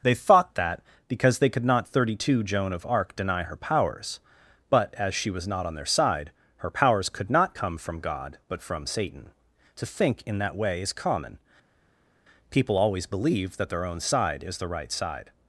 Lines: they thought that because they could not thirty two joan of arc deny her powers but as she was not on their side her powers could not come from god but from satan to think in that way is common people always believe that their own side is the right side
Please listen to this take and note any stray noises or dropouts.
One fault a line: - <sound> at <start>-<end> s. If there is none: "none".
none